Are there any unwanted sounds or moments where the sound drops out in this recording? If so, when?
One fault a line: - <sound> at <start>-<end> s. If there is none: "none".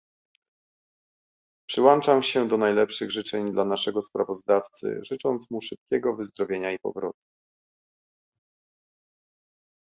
none